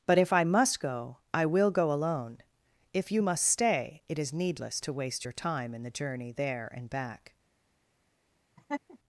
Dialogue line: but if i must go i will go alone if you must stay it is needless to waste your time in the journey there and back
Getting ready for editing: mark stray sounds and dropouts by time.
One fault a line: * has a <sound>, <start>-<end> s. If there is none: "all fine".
* has a laugh, 8.6-9.0 s